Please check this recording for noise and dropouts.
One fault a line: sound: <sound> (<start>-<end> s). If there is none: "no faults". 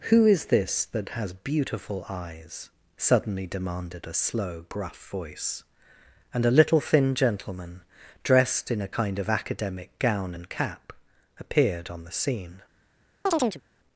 sound: chirp (13.3-13.6 s)